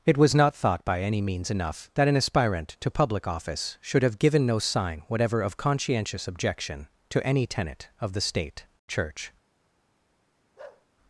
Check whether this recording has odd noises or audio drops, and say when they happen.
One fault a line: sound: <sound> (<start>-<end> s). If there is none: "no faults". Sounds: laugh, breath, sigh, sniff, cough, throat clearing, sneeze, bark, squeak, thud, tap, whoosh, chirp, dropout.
sound: bark (10.6-10.9 s)